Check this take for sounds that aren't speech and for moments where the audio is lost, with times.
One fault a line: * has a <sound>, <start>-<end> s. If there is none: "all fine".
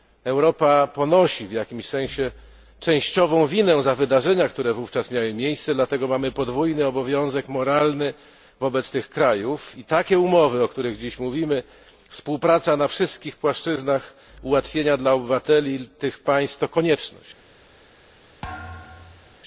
* has a thud, 18.4-19.4 s